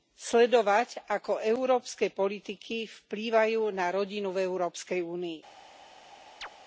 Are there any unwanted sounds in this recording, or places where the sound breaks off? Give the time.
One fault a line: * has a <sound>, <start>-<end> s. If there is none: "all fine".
* has a chirp, 6.4-6.5 s